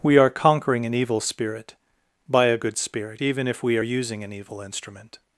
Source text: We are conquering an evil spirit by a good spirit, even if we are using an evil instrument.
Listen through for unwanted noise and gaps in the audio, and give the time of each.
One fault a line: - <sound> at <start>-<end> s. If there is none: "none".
none